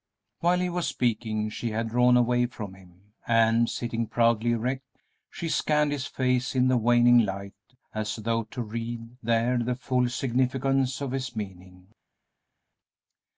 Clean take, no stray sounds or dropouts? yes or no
yes